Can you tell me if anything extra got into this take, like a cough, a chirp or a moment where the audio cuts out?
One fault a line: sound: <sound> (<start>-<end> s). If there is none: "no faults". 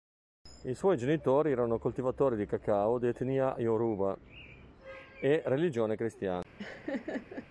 sound: laugh (6.6-7.5 s)